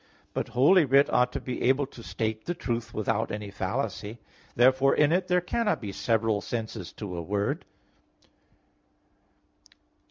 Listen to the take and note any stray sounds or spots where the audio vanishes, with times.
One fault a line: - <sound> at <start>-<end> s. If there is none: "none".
none